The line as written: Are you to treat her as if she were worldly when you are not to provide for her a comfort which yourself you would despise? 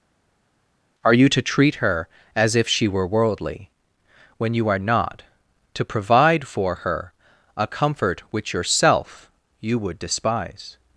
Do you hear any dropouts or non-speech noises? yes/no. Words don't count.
no